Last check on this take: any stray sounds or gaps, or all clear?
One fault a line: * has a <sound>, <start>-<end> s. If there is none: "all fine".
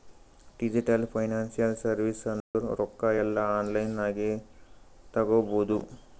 * has a dropout, 2.4-2.5 s